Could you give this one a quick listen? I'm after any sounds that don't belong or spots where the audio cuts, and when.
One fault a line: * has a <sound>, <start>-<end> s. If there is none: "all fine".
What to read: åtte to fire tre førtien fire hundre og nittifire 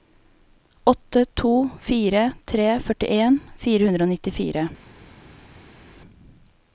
all fine